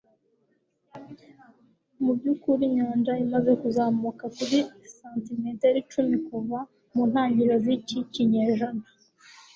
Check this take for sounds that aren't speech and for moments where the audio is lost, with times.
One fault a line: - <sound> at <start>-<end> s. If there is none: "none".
none